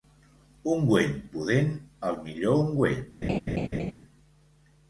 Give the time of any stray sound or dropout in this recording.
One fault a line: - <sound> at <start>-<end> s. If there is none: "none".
- laugh at 3.2-3.9 s